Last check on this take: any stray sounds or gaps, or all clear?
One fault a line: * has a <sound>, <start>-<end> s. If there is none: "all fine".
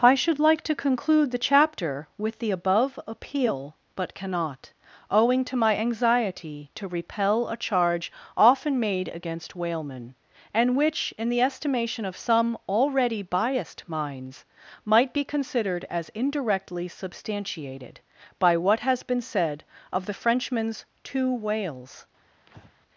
* has a breath, 22.5-22.7 s